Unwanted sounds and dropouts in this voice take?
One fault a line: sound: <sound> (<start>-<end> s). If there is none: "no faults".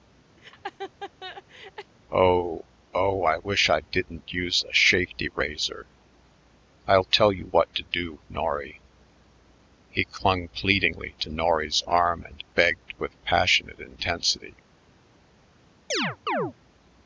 sound: laugh (0.4-1.9 s)
sound: chirp (15.9-16.5 s)